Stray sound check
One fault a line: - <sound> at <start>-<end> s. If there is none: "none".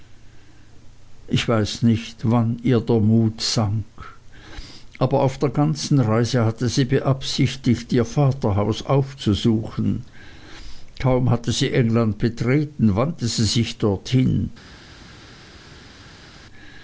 none